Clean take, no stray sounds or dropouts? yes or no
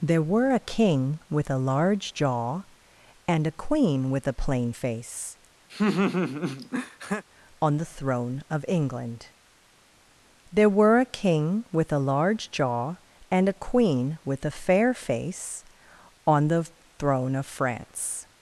no